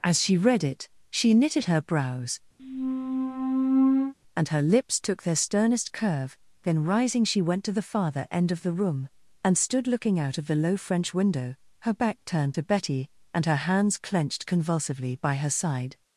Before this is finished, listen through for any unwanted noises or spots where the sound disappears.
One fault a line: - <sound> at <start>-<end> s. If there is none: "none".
- squeak at 2.6-4.1 s